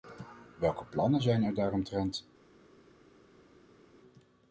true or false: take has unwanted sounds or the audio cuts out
false